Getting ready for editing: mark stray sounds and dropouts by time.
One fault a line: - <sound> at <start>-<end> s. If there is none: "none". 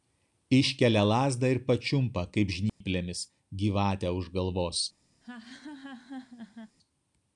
- dropout at 2.7-2.8 s
- laugh at 5.2-6.8 s